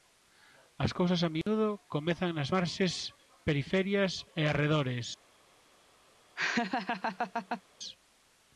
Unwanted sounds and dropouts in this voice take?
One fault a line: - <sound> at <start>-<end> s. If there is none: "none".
- dropout at 1.4-1.5 s
- laugh at 6.4-7.6 s